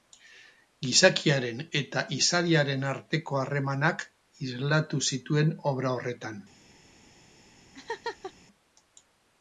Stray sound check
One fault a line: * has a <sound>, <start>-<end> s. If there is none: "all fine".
* has a laugh, 7.7-8.3 s